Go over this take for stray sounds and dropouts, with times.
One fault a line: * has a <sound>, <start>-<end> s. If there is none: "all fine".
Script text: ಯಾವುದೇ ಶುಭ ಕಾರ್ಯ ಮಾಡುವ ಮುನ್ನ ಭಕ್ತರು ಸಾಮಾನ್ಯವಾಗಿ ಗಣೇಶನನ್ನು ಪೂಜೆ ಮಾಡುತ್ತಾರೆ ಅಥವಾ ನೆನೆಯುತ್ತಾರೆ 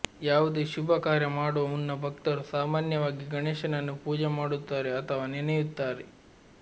all fine